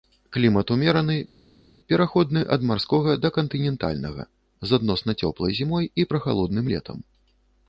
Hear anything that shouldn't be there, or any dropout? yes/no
no